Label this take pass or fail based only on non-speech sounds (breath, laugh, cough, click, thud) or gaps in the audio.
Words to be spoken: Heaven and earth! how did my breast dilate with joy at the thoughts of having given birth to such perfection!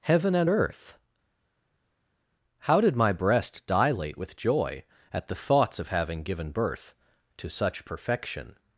pass